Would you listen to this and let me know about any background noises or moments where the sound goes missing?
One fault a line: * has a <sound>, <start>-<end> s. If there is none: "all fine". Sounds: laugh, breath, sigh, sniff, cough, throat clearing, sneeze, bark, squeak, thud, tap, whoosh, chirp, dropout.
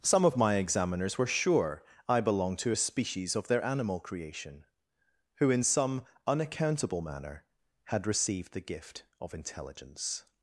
all fine